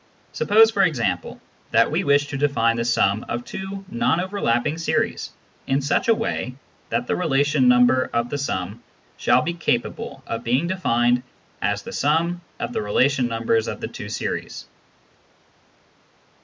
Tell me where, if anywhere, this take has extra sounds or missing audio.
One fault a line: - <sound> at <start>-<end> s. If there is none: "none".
none